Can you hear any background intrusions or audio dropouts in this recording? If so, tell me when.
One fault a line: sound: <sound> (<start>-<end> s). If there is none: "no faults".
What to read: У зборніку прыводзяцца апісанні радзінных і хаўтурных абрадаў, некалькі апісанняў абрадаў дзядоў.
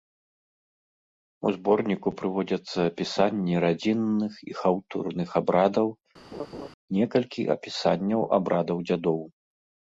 sound: laugh (6.3-6.7 s)